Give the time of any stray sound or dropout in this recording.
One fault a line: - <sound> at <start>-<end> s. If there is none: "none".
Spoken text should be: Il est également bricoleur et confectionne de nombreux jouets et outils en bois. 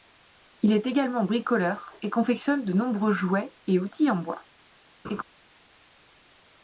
- laugh at 5.0-5.2 s